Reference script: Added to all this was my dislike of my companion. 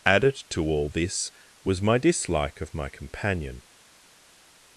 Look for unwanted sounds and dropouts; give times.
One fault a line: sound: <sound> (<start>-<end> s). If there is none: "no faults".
no faults